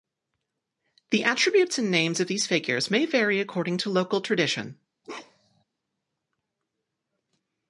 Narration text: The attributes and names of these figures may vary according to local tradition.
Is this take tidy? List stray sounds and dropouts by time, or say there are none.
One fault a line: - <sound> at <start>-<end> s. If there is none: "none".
- bark at 5.0-5.6 s